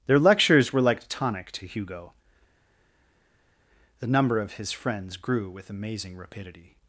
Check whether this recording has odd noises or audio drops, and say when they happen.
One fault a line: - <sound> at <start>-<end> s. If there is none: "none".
none